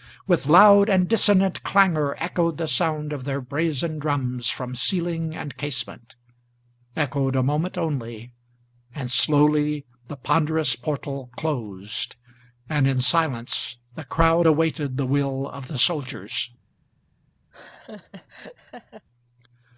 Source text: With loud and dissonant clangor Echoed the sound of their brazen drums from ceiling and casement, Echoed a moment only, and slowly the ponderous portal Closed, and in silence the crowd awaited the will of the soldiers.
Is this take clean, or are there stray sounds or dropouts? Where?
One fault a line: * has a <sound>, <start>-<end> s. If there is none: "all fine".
* has a laugh, 17.5-19.1 s